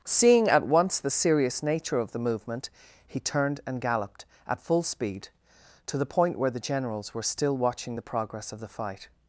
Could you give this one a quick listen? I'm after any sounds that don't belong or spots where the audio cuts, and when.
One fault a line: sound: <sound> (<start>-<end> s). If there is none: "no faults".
no faults